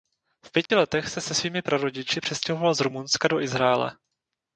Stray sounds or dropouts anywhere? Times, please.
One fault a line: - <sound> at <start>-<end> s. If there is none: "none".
- dropout at 0.7-0.7 s